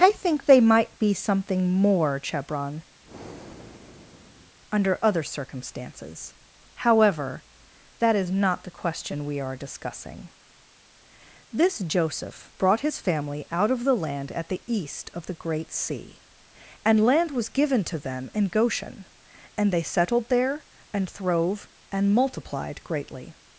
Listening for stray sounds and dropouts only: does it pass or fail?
fail